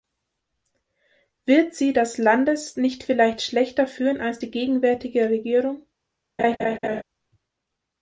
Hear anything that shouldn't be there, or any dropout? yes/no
yes